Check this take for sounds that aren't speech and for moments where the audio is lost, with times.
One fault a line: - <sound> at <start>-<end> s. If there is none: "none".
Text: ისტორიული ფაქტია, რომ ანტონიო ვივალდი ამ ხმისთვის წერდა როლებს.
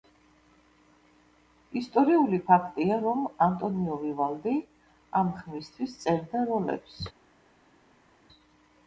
none